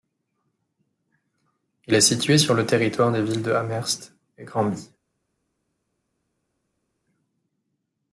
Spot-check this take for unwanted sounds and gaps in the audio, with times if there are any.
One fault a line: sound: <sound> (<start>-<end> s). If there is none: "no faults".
no faults